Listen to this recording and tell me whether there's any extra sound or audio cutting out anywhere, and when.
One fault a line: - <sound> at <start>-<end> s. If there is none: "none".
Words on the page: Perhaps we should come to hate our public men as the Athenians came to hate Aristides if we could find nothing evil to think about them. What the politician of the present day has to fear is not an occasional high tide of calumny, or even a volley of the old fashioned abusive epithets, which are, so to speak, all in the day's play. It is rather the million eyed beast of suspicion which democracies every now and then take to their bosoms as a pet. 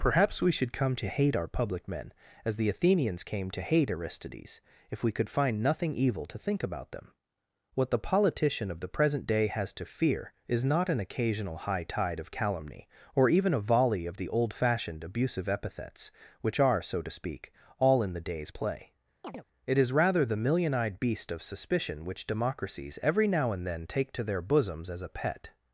- chirp at 19.2-19.4 s